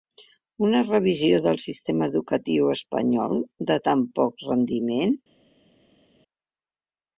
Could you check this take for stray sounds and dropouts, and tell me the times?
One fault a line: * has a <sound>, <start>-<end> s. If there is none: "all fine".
all fine